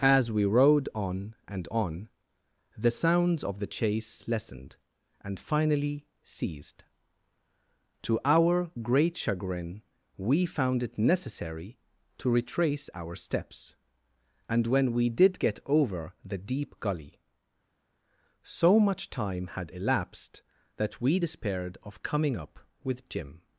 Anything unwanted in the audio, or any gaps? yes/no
no